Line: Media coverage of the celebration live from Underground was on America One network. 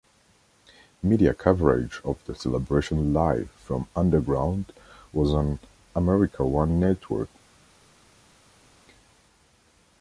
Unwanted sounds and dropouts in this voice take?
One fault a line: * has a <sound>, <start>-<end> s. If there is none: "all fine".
all fine